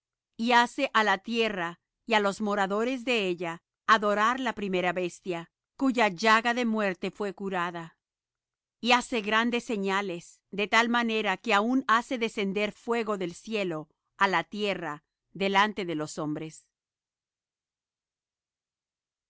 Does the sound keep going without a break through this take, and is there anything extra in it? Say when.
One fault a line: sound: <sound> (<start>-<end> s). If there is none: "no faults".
no faults